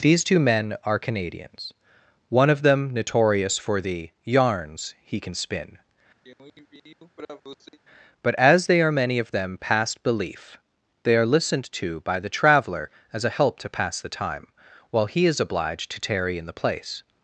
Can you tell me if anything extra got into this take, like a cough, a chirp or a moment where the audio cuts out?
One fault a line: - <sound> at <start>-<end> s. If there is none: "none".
- throat clearing at 6.2-7.8 s